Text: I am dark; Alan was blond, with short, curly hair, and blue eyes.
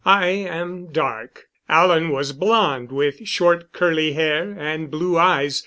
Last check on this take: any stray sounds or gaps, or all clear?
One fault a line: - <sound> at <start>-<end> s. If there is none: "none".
none